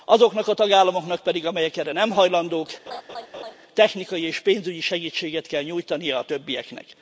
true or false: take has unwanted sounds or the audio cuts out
true